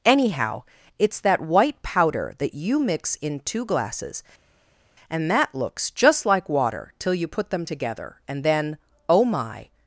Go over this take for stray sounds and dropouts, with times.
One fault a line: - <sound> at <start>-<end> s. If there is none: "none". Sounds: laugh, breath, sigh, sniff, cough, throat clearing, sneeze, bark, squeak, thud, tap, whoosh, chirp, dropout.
none